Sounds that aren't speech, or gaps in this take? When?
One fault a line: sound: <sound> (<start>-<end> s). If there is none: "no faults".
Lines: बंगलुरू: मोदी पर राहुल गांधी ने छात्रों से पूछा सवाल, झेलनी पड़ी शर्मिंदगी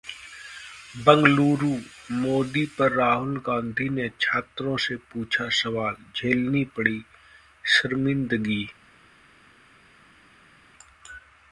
no faults